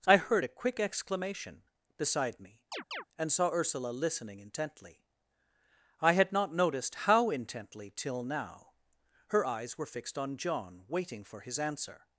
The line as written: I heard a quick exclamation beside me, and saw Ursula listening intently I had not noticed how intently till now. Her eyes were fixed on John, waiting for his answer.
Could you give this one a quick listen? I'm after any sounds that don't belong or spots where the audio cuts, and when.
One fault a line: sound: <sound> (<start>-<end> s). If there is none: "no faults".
sound: chirp (2.7-3.0 s)